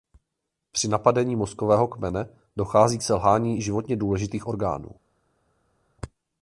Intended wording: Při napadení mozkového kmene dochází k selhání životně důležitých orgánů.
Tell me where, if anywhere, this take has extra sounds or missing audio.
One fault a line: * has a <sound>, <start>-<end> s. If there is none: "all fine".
all fine